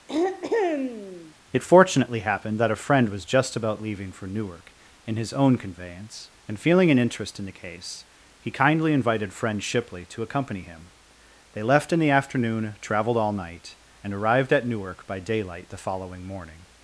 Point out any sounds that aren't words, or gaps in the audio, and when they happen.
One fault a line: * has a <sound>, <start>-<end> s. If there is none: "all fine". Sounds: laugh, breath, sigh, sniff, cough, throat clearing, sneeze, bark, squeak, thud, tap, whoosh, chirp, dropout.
* has a throat clearing, 0.1-1.3 s